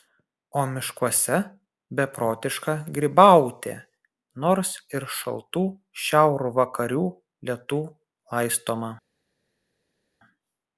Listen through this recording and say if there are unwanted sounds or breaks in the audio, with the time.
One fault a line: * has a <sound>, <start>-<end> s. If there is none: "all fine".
all fine